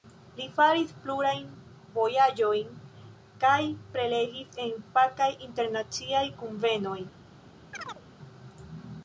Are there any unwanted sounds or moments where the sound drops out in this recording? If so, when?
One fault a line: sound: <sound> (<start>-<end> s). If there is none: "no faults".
sound: chirp (7.7-8.0 s)